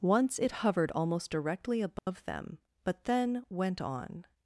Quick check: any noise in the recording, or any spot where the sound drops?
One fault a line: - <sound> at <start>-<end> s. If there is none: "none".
- dropout at 2.0-2.1 s